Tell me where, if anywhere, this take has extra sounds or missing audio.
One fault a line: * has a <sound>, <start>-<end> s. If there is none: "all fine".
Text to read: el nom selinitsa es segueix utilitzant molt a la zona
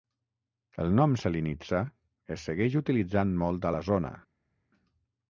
all fine